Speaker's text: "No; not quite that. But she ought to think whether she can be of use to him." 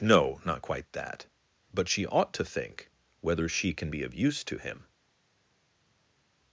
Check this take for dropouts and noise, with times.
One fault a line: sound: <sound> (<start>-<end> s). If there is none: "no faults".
no faults